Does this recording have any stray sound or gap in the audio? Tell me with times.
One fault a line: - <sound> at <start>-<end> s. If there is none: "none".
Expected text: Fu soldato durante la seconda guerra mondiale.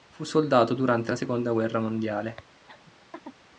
- laugh at 2.7-3.4 s